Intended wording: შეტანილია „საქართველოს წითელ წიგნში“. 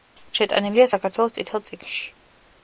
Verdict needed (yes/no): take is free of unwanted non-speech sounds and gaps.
yes